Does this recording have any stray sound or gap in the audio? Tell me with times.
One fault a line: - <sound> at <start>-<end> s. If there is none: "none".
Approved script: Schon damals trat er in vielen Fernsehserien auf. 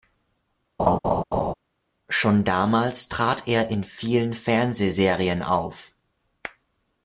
- laugh at 0.8-1.5 s